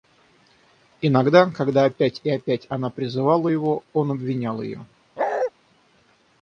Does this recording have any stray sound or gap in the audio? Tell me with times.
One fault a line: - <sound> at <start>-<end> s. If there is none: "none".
- bark at 5.2-5.5 s